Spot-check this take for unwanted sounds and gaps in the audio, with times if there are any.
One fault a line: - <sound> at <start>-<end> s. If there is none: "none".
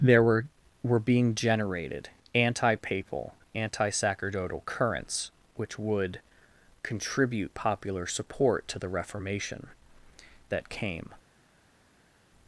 none